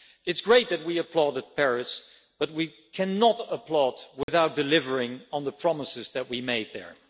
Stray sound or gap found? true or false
true